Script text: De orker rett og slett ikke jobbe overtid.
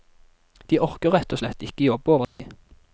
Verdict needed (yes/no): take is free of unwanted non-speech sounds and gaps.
no